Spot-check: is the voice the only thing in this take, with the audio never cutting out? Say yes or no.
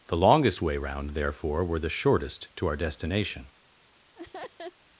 no